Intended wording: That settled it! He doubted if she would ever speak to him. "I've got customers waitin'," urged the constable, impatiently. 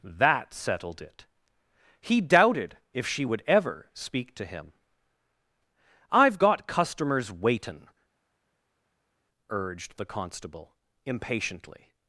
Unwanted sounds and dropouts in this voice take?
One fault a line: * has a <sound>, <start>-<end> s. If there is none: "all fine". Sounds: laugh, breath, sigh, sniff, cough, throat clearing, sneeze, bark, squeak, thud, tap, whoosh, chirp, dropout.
all fine